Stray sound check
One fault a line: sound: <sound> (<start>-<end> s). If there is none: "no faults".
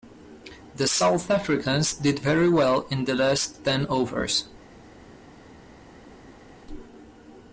no faults